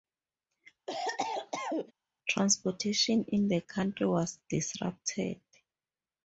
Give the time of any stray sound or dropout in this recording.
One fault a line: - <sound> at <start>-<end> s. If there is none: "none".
- cough at 0.9-1.9 s